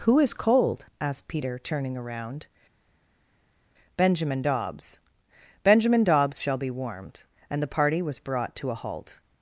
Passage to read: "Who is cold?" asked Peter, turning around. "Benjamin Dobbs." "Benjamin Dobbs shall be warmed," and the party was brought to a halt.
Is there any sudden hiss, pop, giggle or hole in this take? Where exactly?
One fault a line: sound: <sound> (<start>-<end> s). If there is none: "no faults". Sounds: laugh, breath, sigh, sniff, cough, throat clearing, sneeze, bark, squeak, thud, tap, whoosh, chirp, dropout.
no faults